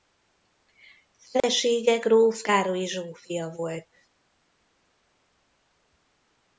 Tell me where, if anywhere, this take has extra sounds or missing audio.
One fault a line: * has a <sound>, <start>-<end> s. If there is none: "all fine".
* has a dropout, 1.4-1.4 s